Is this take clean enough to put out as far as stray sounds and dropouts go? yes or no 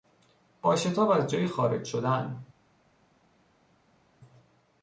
yes